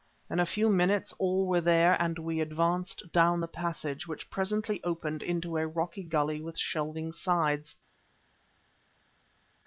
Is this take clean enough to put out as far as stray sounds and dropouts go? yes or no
yes